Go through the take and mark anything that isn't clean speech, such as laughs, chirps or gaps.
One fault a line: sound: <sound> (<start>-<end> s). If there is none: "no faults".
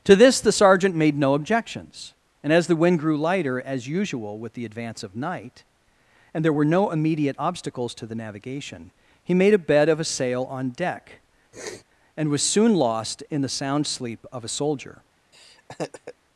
sound: sniff (11.5-11.8 s)
sound: laugh (15.3-16.1 s)